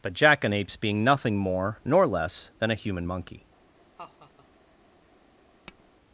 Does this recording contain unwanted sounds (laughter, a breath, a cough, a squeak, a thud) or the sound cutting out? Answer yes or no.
yes